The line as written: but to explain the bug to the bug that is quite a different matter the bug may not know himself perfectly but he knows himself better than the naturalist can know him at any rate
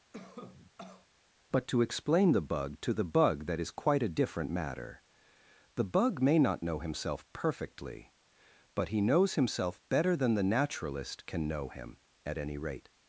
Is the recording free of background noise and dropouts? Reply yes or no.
no